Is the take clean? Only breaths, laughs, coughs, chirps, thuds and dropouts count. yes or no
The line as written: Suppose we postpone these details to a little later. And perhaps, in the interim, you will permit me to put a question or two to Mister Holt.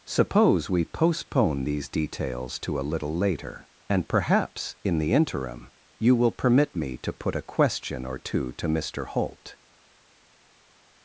yes